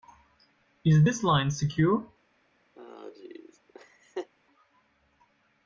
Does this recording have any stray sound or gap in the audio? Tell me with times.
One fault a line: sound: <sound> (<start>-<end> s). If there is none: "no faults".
sound: laugh (2.8-4.3 s)